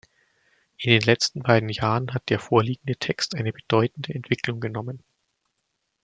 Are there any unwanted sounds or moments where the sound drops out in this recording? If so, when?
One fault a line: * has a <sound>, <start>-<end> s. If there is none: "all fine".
all fine